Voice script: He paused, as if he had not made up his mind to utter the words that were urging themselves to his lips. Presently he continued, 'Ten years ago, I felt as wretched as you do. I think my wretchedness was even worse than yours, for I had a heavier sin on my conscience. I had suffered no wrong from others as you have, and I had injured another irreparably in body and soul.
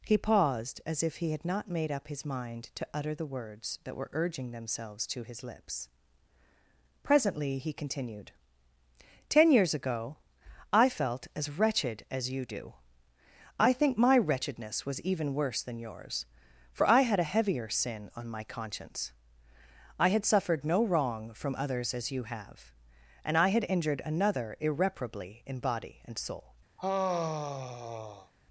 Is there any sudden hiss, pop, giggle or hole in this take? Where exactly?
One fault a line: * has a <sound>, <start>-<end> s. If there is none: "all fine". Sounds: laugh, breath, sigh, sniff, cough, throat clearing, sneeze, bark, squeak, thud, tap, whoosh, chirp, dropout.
* has a sigh, 26.8-28.3 s